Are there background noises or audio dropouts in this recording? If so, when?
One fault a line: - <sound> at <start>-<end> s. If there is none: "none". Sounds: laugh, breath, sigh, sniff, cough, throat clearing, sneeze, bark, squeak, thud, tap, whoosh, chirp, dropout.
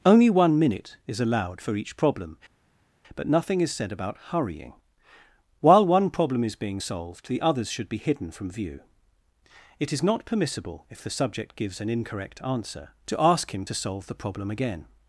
none